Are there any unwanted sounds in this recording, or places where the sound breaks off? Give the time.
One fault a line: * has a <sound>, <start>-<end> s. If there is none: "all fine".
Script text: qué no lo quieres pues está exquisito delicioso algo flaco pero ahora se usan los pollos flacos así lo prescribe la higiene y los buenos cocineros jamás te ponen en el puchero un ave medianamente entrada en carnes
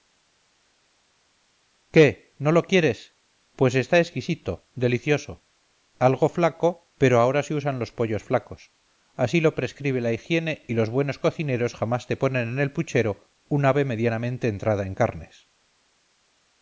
all fine